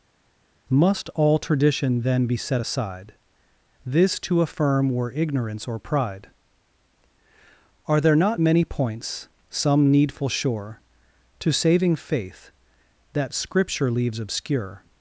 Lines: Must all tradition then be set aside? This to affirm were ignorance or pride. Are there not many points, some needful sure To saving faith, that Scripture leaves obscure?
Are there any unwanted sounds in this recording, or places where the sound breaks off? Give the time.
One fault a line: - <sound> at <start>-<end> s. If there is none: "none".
none